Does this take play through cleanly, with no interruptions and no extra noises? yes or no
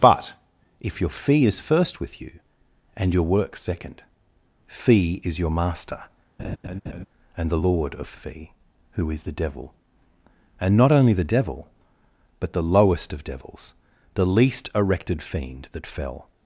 no